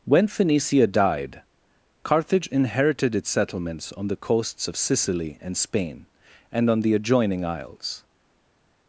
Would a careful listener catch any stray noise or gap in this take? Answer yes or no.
no